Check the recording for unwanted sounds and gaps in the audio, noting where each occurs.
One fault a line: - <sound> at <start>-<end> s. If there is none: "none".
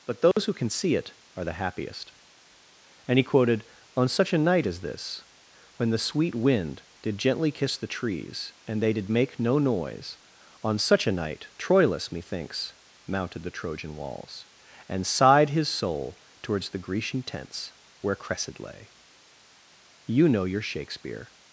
- dropout at 0.3-0.4 s